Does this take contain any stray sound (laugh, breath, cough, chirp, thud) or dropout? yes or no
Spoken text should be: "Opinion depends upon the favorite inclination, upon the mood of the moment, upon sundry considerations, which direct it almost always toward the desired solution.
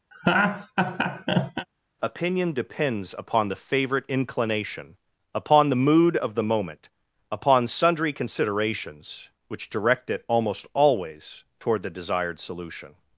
yes